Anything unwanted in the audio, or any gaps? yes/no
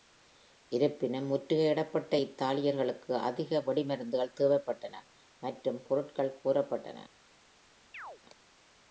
yes